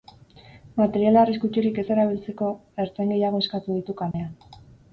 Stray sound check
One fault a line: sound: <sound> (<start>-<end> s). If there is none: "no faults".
sound: dropout (4.1-4.1 s)